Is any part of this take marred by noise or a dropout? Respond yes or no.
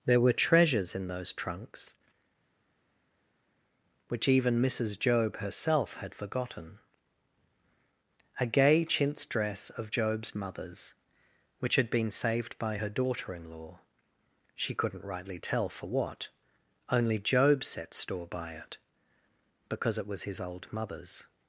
no